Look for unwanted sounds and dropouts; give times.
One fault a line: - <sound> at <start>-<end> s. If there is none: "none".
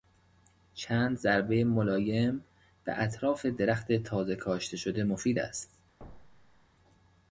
- thud at 6.0-6.7 s